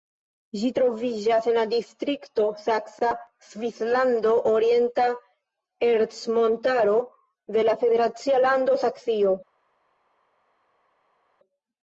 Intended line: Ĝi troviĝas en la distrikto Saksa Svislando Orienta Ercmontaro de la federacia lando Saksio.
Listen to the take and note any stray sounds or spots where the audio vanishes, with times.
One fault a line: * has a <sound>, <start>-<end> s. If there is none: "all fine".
all fine